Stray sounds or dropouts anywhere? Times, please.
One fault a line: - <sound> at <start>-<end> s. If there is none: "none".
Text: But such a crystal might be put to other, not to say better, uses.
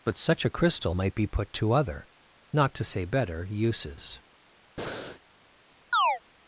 - breath at 4.8-5.2 s
- chirp at 5.9-6.2 s